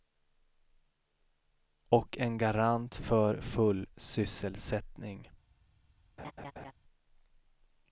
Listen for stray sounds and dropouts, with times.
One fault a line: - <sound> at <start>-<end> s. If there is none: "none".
- laugh at 6.2-6.7 s